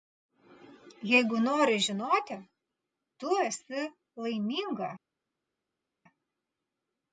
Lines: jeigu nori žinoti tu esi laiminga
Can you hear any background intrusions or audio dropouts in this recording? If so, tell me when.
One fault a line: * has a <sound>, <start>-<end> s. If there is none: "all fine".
all fine